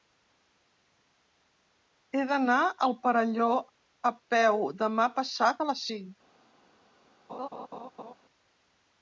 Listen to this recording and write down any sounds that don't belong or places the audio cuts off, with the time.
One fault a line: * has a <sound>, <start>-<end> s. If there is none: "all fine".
* has a laugh, 7.3-8.1 s